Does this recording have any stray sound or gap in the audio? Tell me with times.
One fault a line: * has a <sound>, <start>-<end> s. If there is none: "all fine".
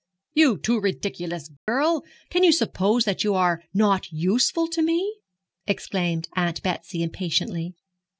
* has a dropout, 1.6-1.7 s